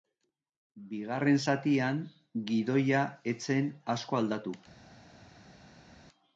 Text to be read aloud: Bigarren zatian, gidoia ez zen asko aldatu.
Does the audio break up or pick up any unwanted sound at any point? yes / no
no